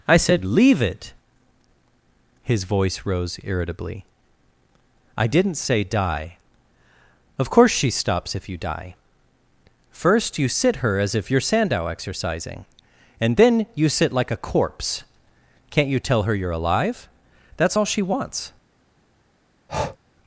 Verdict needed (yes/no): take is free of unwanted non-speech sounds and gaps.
no